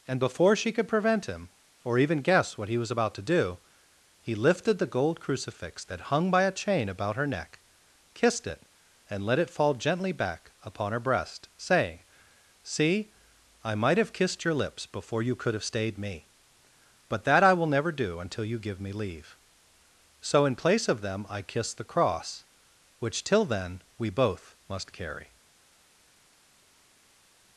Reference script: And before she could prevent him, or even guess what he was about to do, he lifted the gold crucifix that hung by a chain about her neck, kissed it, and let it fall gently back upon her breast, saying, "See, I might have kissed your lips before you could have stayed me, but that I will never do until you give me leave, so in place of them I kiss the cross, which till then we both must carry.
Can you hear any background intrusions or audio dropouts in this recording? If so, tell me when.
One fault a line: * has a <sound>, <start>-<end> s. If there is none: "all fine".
all fine